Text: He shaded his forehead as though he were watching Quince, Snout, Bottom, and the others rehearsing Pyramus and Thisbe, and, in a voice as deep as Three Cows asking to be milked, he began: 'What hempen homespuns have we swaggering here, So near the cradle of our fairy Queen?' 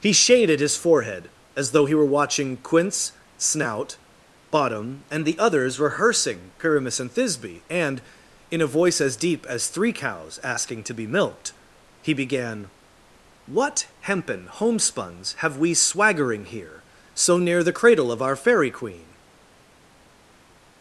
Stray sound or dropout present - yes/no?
no